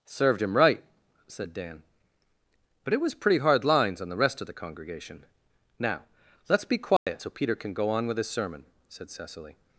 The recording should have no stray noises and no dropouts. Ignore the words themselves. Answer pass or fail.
fail